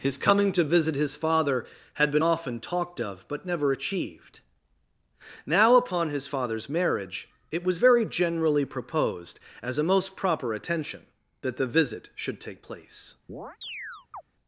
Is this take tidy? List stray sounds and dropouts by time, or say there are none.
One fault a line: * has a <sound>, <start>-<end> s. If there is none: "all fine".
* has a chirp, 13.3-14.2 s